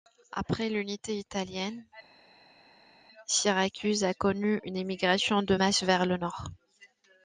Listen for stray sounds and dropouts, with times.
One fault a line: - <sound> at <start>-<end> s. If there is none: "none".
none